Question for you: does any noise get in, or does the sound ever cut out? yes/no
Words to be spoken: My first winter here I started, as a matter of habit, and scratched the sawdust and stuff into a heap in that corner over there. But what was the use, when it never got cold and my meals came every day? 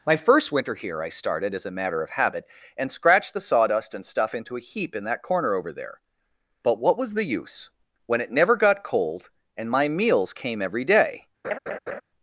yes